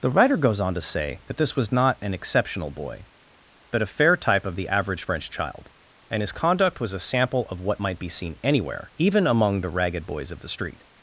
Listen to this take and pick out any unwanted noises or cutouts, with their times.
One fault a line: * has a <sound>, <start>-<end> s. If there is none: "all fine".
all fine